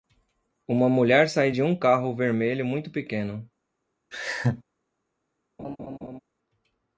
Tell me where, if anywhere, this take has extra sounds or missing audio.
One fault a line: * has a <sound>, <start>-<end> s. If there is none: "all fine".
* has a laugh, 4.1-4.6 s
* has a laugh, 5.6-6.2 s